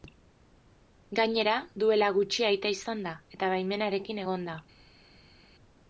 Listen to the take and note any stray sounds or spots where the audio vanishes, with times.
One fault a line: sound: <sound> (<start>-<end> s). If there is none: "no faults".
no faults